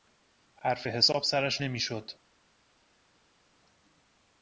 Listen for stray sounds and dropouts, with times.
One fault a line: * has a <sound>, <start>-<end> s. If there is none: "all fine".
all fine